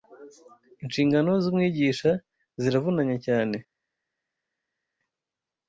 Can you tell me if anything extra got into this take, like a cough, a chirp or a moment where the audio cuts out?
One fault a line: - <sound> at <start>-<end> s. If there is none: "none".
none